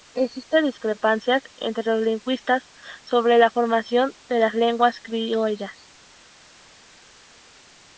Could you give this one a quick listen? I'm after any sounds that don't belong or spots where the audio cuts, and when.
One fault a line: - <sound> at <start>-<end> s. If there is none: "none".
none